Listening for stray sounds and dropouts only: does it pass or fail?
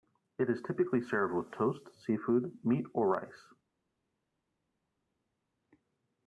pass